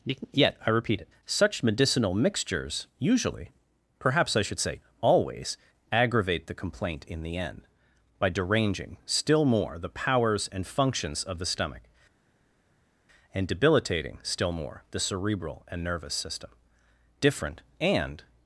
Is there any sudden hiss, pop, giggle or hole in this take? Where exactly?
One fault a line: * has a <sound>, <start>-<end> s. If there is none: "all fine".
all fine